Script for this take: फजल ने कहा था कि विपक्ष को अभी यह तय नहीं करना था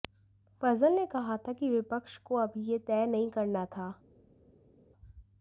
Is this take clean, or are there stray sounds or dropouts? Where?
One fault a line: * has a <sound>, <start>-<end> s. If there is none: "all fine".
all fine